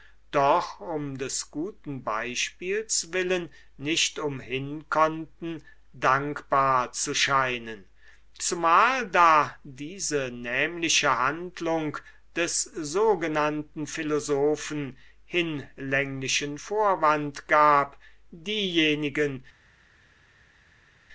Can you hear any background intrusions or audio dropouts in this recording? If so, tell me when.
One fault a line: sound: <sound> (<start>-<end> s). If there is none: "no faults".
no faults